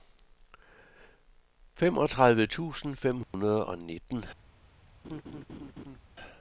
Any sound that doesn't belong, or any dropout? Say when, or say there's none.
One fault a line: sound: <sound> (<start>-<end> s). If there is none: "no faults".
sound: dropout (3.2-3.3 s)
sound: laugh (5.0-6.0 s)